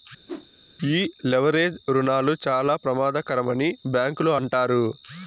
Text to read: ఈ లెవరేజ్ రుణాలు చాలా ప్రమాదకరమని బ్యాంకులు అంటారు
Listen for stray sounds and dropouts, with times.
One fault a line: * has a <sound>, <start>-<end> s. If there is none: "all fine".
* has a whoosh, 0.3-0.5 s